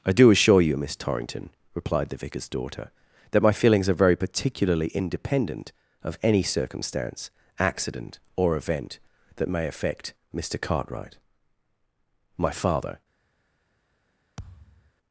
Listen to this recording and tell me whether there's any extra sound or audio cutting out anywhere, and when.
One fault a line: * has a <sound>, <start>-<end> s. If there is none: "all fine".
* has a thud, 14.4-14.9 s